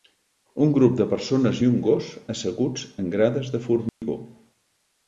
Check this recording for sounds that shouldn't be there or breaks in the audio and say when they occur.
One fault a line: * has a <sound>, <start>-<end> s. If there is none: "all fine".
* has a dropout, 3.9-4.0 s